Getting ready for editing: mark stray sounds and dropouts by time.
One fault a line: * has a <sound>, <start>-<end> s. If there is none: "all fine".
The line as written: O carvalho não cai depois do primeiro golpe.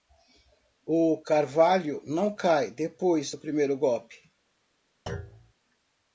* has a thud, 5.1-5.5 s